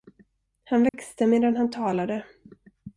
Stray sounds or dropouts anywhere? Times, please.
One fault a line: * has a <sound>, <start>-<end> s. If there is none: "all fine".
* has a dropout, 0.9-0.9 s